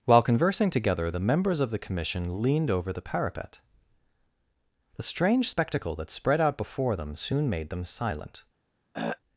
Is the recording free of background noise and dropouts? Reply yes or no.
no